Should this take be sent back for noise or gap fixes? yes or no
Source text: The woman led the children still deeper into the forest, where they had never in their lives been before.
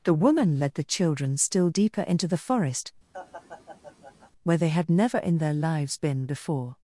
yes